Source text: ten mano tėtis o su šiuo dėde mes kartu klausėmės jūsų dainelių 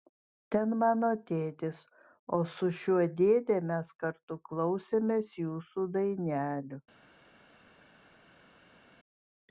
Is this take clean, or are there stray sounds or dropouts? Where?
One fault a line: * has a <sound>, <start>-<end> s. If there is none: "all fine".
all fine